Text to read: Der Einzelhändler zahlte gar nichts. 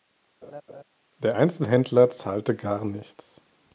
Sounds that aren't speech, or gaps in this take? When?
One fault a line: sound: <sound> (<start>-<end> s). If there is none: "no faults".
sound: laugh (0.4-0.8 s)